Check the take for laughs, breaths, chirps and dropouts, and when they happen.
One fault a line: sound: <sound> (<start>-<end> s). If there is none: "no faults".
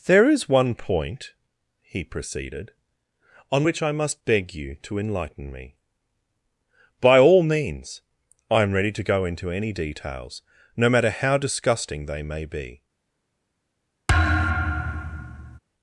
sound: thud (14.1-15.6 s)